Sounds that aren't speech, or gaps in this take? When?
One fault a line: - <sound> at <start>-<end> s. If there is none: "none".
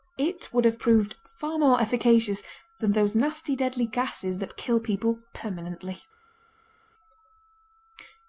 none